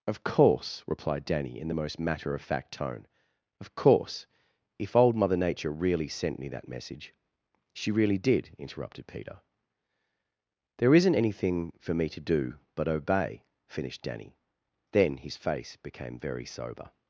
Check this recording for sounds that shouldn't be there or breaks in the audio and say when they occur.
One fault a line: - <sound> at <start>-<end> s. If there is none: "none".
none